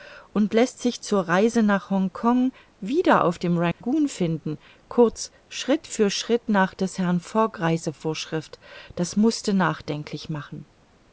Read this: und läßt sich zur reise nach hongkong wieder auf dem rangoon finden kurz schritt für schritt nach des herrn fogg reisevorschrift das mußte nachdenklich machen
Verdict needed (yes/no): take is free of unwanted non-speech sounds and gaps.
no